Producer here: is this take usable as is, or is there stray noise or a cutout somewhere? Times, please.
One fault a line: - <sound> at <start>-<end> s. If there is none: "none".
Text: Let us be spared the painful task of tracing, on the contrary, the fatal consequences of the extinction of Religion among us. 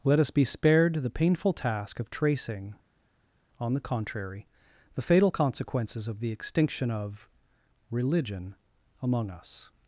none